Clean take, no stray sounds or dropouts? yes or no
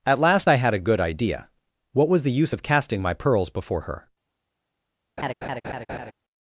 no